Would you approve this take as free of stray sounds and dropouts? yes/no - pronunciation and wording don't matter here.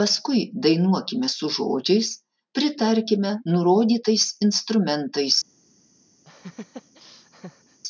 no